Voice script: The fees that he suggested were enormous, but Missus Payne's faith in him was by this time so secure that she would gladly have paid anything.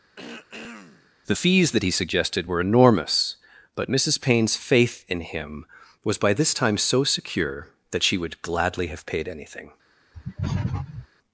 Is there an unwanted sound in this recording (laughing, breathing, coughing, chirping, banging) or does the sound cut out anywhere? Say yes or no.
yes